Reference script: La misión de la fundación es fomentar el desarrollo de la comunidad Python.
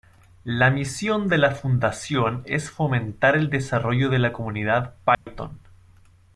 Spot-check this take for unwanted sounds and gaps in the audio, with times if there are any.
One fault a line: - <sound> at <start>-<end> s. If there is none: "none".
- dropout at 5.1-5.3 s